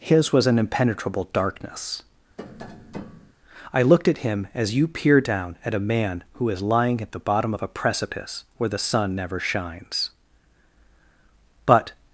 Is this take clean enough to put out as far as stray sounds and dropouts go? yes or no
no